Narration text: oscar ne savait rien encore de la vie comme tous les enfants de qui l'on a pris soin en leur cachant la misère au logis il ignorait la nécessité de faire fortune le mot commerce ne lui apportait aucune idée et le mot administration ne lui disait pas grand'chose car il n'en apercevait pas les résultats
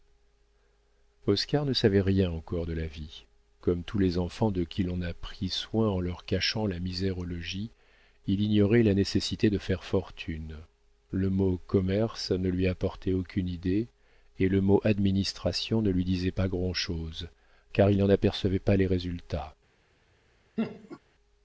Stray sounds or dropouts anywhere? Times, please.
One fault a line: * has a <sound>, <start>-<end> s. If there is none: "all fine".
* has a laugh, 20.6-21.0 s